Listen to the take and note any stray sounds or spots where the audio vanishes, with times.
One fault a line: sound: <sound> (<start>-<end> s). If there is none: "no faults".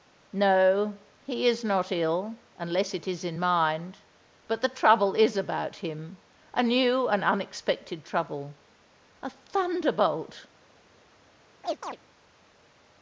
sound: chirp (11.6-12.0 s)